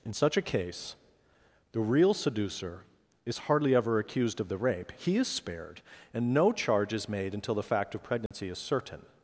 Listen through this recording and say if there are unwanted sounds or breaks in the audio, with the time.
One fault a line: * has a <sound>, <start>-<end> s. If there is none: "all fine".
* has a dropout, 8.3-8.3 s